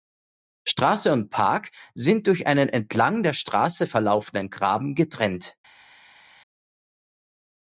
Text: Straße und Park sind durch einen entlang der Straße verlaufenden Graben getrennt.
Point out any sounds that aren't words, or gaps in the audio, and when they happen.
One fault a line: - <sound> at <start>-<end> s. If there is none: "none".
none